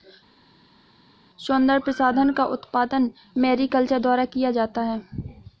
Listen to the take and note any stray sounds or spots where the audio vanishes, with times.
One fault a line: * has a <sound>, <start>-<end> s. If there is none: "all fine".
all fine